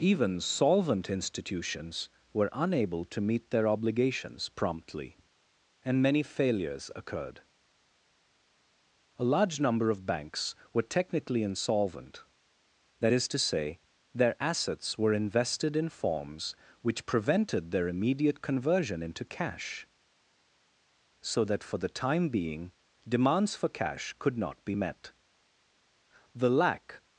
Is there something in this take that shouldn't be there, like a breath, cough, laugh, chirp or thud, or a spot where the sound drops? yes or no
no